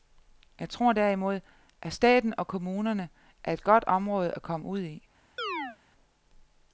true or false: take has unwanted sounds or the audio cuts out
true